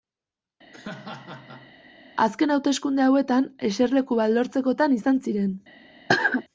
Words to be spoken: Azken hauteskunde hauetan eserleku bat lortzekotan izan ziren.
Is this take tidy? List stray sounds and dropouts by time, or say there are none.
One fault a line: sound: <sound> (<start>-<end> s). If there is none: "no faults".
sound: laugh (0.7-1.7 s)
sound: cough (6.1-6.4 s)